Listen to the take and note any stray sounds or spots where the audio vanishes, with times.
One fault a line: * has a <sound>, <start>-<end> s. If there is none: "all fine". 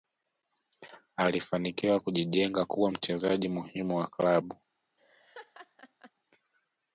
* has a laugh, 5.0-6.1 s